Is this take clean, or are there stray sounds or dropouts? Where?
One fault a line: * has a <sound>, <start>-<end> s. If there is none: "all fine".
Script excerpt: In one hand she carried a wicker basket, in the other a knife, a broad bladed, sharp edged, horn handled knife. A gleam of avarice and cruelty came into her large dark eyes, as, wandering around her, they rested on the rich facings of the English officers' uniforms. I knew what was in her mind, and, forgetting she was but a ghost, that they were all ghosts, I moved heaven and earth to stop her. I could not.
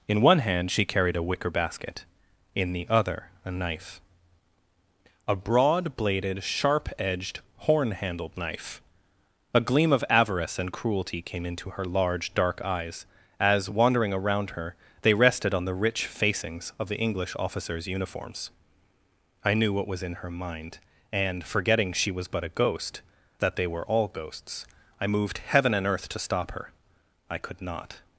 all fine